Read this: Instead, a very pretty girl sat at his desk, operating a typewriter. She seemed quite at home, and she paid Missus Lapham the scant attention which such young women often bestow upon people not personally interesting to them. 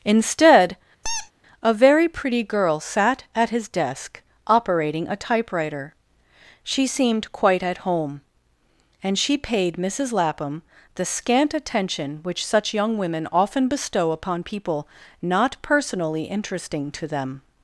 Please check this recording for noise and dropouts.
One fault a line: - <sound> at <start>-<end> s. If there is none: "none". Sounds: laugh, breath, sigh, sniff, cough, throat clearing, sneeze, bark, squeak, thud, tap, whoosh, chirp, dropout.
- squeak at 1.0-1.3 s